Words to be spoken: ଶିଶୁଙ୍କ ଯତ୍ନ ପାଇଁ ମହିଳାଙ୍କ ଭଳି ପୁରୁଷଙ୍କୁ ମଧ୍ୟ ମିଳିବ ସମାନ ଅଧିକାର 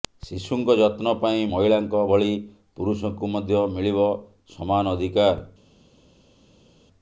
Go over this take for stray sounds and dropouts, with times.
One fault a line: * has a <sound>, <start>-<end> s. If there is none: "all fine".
all fine